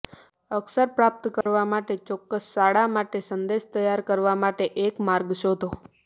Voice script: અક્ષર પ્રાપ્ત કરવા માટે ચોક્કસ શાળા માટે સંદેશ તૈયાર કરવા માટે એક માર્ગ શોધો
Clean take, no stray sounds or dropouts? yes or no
no